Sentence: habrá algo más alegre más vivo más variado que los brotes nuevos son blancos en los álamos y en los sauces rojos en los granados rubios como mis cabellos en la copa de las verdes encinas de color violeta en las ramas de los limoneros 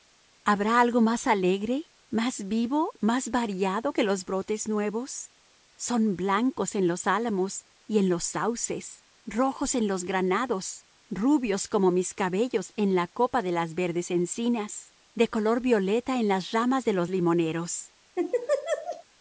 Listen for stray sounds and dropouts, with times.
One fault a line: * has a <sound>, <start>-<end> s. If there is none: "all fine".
* has a laugh, 18.1-19.0 s